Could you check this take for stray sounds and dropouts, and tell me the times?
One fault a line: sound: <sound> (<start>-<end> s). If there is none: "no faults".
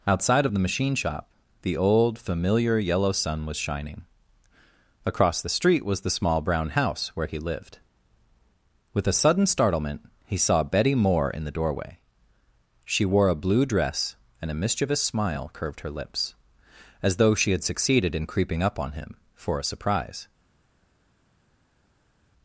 no faults